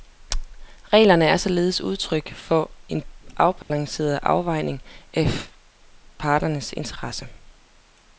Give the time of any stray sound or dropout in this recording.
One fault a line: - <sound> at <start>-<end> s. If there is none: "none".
- dropout at 3.6-3.7 s